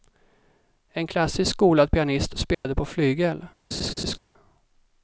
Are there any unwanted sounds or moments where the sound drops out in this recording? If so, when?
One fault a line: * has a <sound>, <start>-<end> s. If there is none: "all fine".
* has a dropout, 2.5-2.6 s
* has a laugh, 3.7-4.2 s